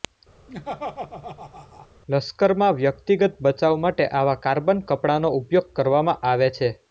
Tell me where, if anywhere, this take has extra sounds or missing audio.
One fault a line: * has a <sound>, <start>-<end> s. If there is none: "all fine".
* has a laugh, 0.5-1.9 s